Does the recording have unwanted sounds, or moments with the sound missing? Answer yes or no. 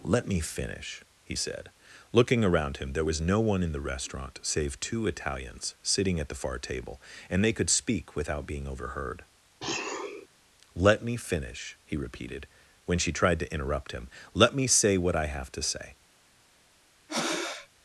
yes